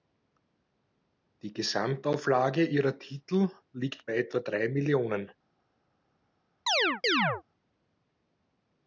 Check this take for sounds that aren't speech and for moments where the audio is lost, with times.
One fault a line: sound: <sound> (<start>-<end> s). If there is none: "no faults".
sound: chirp (6.7-7.4 s)